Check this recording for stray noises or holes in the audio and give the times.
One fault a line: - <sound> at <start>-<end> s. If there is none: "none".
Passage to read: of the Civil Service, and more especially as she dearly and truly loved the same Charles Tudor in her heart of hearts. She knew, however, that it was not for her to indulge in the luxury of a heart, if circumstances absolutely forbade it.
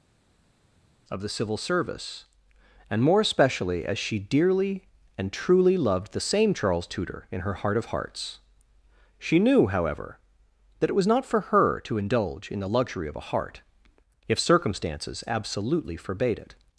none